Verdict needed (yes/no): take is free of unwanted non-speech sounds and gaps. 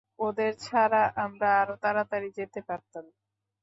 yes